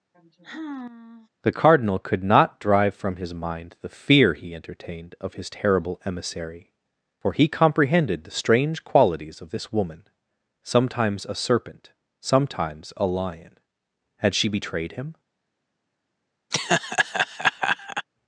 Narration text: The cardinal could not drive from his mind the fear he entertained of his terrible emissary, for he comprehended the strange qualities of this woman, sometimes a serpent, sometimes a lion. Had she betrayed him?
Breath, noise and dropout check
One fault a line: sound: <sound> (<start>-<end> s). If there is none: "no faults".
sound: sigh (0.1-1.3 s)
sound: laugh (16.5-18.0 s)